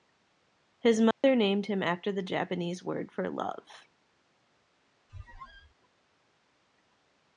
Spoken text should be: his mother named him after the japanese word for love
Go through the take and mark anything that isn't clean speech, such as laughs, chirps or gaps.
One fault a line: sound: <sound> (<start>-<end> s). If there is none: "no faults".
sound: dropout (1.1-1.2 s)
sound: squeak (5.1-5.7 s)